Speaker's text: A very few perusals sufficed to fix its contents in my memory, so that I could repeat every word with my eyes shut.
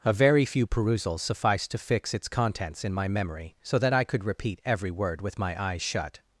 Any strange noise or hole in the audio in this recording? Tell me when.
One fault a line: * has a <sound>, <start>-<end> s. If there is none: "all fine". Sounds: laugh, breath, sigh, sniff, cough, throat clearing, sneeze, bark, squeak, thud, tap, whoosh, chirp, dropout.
all fine